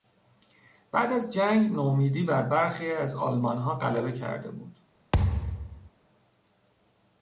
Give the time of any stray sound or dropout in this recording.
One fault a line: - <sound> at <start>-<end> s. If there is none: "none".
- thud at 5.1-5.9 s